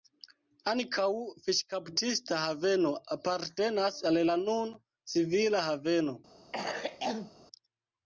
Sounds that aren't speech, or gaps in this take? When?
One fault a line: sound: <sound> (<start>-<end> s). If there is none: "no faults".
sound: cough (6.5-7.3 s)